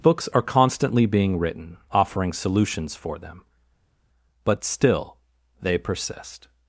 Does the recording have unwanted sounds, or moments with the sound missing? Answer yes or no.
no